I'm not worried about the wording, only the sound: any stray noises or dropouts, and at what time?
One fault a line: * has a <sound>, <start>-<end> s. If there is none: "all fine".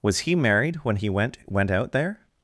all fine